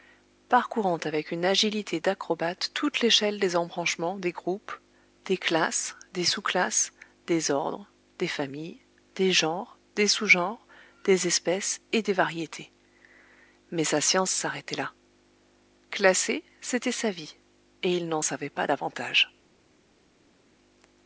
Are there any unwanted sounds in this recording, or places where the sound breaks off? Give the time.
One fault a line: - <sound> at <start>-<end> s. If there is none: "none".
none